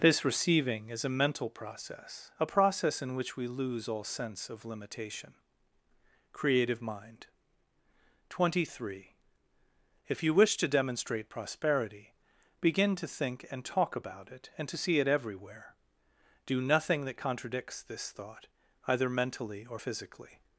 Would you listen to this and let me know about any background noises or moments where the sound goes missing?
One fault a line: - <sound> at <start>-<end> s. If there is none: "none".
none